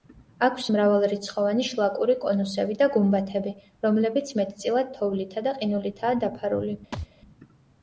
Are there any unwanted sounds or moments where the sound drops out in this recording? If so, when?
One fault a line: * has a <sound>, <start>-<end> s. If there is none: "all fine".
* has a thud, 6.9-7.1 s